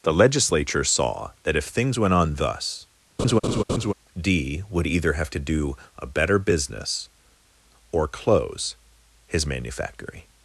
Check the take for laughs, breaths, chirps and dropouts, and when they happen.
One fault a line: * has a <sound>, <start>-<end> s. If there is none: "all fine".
* has a laugh, 3.2-3.9 s